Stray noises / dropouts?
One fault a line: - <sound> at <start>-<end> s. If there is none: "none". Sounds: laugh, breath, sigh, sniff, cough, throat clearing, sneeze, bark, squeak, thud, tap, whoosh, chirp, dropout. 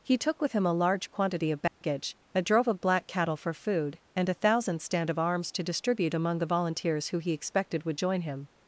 - dropout at 1.7-1.8 s